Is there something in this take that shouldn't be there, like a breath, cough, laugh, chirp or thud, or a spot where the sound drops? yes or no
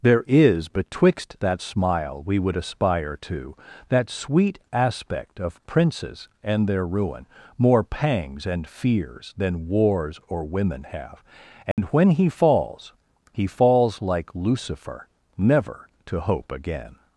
yes